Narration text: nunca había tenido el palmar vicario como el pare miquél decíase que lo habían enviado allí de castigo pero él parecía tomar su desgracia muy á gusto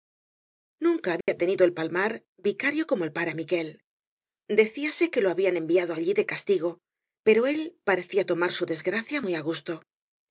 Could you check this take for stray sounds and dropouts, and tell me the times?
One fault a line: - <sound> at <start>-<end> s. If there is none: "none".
- dropout at 1.2-1.3 s